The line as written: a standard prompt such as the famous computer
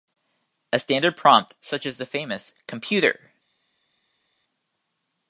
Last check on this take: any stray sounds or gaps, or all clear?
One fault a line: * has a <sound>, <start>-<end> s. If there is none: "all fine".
all fine